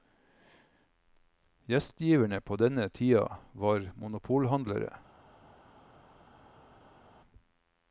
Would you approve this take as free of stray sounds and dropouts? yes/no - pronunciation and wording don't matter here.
yes